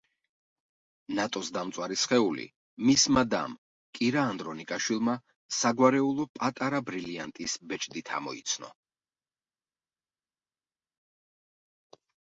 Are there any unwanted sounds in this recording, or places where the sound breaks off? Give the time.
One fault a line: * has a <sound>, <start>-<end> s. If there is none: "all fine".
all fine